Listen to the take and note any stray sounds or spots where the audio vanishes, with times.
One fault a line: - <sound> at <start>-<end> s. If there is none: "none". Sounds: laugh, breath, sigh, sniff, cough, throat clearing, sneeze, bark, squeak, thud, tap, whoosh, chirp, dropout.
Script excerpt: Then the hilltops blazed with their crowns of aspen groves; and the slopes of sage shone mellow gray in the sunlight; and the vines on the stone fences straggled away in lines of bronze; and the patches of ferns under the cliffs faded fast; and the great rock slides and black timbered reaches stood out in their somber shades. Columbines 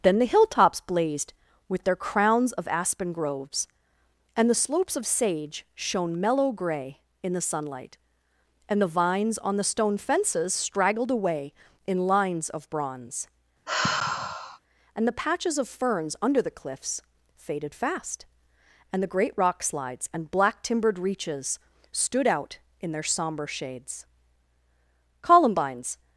- sigh at 13.7-14.6 s